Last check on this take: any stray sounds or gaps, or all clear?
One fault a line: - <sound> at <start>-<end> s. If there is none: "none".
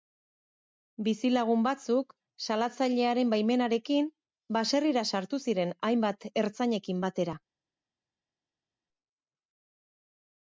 none